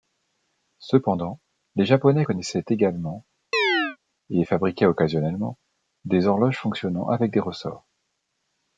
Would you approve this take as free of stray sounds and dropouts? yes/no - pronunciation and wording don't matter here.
no